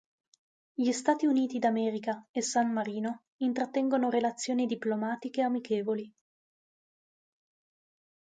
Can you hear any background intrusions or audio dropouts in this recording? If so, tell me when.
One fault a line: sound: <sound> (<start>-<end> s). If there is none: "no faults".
no faults